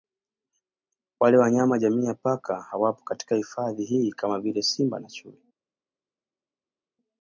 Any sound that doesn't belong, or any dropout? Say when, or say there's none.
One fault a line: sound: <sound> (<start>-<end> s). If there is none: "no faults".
no faults